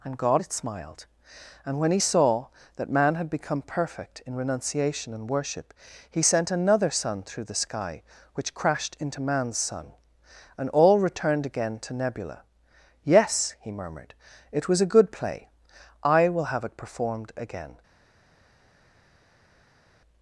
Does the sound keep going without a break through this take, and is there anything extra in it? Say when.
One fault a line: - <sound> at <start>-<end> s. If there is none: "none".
none